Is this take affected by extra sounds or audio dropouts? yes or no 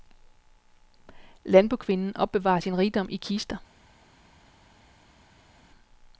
no